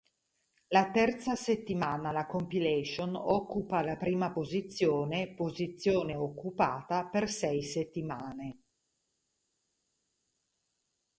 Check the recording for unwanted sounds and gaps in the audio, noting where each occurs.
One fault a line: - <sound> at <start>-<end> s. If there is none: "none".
none